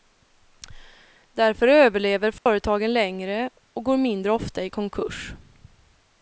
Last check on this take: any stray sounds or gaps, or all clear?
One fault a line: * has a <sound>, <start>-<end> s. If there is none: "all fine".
* has a dropout, 2.4-2.5 s